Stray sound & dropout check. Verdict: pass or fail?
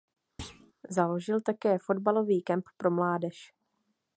fail